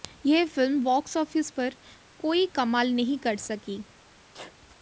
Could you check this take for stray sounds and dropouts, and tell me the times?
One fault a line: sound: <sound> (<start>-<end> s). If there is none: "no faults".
sound: sneeze (4.3-4.6 s)